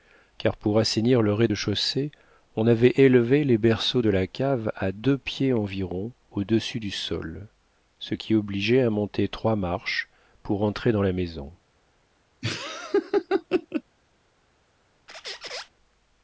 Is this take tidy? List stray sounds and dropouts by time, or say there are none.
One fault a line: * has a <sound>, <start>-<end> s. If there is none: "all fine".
* has a laugh, 12.4-13.8 s
* has a squeak, 15.1-15.7 s